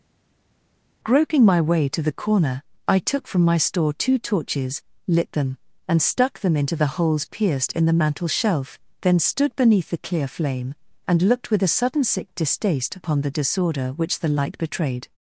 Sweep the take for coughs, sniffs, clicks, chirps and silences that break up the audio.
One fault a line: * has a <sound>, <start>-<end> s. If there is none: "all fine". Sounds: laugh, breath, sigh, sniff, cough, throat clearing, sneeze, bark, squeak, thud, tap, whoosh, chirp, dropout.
all fine